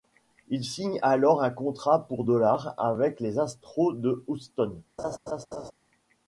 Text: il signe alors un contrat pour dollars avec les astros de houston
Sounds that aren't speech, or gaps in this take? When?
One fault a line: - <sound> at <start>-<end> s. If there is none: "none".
- laugh at 5.0-5.7 s